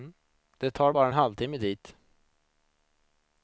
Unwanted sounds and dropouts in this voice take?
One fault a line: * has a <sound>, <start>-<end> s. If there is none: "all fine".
all fine